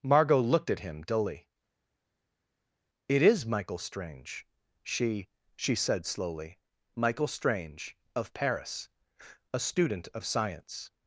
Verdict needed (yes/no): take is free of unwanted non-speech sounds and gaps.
yes